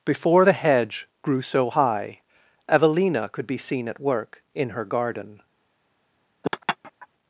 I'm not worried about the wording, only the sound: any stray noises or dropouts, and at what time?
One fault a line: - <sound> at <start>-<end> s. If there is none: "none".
- laugh at 6.4-7.1 s